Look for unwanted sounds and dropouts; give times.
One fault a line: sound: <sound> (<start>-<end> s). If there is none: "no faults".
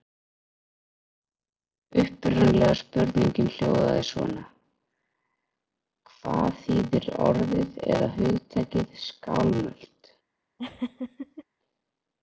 sound: laugh (10.6-11.4 s)